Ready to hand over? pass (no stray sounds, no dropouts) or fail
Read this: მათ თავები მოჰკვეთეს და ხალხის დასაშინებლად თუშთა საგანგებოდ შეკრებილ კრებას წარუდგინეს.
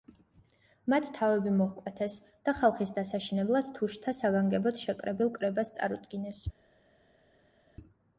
pass